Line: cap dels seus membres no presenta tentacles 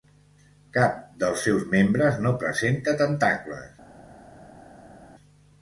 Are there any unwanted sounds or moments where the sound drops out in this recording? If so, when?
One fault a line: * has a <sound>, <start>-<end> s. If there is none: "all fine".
all fine